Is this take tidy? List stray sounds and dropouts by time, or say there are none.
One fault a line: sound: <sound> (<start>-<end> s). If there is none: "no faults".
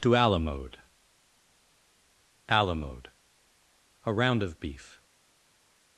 no faults